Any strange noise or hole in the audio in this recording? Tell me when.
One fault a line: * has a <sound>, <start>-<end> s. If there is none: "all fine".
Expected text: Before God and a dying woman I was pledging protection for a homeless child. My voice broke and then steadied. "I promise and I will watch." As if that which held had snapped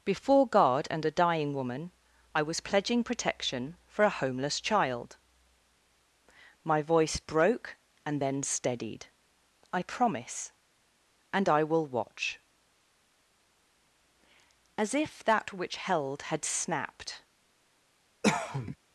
* has a cough, 18.2-18.8 s